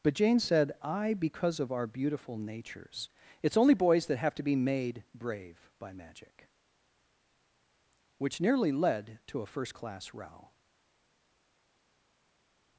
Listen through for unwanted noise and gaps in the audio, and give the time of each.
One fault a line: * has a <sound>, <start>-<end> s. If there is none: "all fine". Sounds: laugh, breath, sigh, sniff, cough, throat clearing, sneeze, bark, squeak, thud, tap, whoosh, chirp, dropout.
all fine